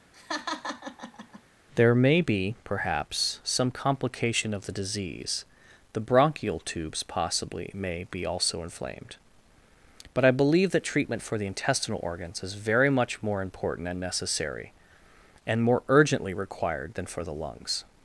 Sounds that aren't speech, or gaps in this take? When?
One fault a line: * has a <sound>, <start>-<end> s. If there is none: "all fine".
* has a laugh, 0.1-1.4 s